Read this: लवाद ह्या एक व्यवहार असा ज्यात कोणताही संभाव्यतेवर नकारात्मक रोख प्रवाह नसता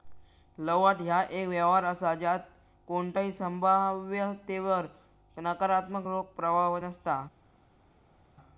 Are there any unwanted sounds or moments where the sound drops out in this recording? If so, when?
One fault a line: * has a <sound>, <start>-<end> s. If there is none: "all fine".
all fine